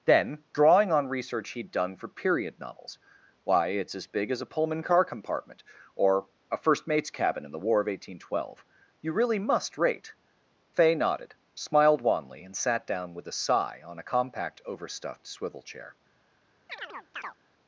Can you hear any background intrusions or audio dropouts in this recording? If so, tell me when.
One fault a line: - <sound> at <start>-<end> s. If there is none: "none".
- chirp at 16.7-17.4 s